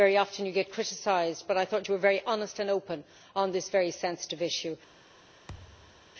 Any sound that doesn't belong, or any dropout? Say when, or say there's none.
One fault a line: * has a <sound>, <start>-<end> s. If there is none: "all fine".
* has a thud, 5.5-6.1 s